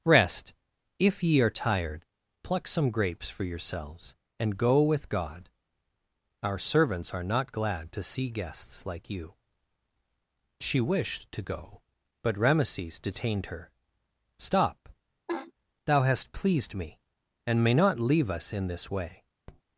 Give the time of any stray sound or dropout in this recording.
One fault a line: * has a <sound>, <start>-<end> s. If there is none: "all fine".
* has a laugh, 15.3-15.5 s
* has a tap, 19.5-19.6 s